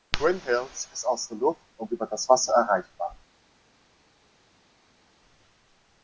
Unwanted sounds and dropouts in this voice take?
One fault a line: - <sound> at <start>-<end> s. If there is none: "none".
none